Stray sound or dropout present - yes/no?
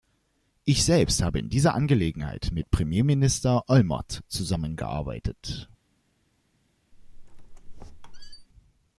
yes